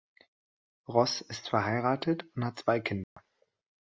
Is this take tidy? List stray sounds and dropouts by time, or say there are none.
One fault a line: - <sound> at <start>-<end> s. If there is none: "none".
- dropout at 3.0-3.2 s